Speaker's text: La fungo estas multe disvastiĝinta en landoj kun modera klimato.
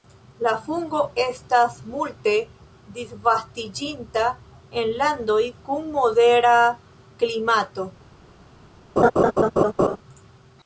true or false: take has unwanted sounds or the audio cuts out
true